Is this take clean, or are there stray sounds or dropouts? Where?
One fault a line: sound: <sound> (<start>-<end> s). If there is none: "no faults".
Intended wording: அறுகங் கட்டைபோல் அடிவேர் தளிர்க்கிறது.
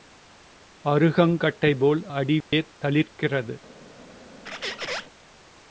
sound: dropout (2.4-2.5 s)
sound: squeak (4.5-5.1 s)